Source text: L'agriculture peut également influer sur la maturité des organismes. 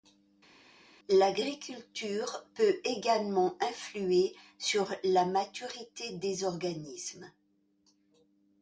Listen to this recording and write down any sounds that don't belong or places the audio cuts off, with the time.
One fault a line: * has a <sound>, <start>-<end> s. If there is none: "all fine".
all fine